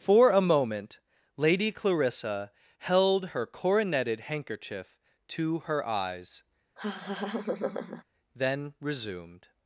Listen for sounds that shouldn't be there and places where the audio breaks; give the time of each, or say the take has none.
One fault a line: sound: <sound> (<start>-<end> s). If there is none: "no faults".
sound: laugh (6.8-8.0 s)